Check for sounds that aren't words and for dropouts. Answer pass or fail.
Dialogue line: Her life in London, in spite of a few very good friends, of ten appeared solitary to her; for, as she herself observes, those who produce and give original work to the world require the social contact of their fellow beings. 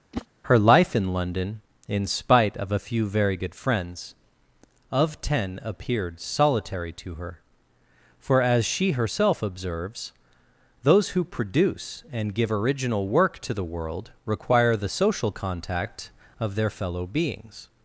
fail